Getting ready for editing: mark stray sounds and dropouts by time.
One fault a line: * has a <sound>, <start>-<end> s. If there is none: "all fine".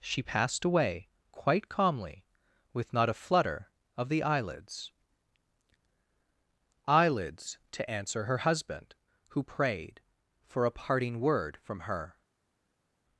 all fine